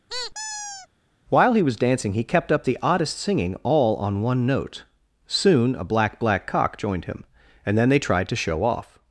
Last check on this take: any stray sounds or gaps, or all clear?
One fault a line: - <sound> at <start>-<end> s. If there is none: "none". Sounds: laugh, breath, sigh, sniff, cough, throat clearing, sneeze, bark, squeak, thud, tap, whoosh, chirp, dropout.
- squeak at 0.1-0.9 s